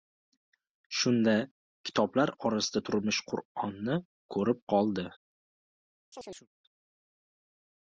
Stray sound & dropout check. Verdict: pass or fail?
fail